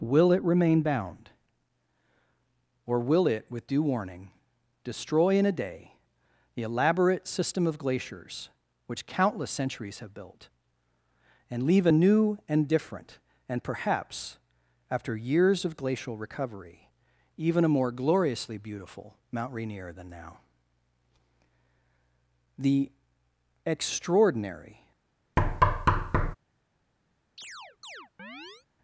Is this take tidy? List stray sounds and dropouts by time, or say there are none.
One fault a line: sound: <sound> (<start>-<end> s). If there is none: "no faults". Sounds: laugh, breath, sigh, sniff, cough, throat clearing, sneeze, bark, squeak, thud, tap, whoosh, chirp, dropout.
sound: thud (25.4-26.4 s)
sound: chirp (27.4-28.7 s)